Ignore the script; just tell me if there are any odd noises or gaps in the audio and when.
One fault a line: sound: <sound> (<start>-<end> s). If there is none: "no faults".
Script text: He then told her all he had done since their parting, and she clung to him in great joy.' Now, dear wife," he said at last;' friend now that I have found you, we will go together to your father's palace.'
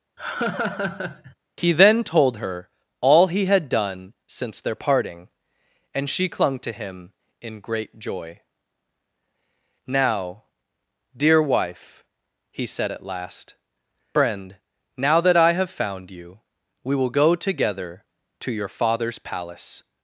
sound: laugh (0.2-1.3 s)